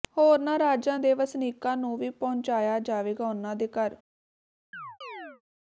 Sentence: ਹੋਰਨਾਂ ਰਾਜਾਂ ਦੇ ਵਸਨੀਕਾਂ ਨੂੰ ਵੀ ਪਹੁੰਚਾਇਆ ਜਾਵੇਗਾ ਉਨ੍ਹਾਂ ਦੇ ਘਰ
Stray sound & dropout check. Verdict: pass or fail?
fail